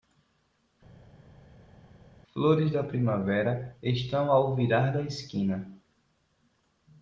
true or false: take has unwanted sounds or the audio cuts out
false